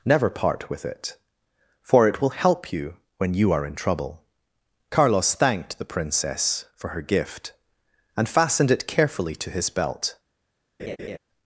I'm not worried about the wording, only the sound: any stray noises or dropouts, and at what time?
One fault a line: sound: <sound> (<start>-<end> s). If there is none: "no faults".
sound: laugh (10.8-11.2 s)